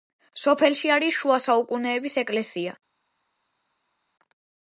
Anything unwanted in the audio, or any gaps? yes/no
no